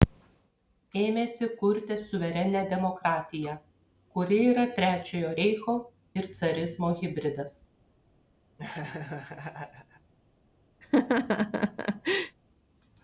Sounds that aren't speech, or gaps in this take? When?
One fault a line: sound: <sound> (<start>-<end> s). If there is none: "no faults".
sound: laugh (8.6-10.1 s)
sound: laugh (10.8-12.4 s)